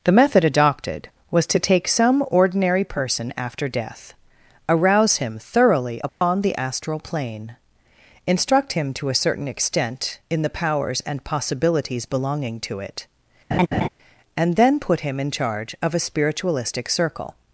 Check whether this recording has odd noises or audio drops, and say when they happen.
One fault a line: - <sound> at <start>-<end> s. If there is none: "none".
- dropout at 6.1-6.2 s
- laugh at 13.5-13.9 s